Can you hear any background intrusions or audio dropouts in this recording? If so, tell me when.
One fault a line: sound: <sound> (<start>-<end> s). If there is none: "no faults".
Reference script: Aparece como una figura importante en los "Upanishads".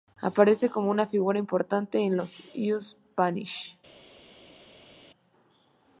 no faults